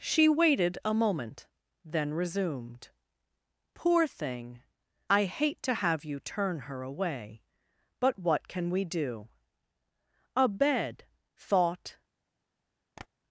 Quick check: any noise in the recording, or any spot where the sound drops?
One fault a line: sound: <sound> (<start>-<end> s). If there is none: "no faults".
sound: tap (13.0-13.1 s)